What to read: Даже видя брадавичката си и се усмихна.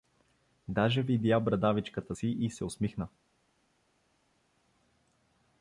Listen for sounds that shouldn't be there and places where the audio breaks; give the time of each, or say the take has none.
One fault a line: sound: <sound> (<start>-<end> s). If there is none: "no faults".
no faults